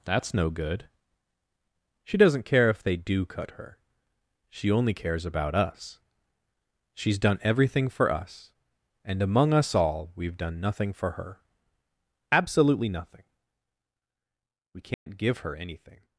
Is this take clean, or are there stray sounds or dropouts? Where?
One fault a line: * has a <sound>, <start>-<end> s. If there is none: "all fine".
* has a dropout, 14.9-15.1 s